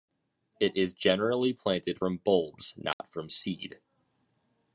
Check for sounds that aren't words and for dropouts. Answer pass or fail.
fail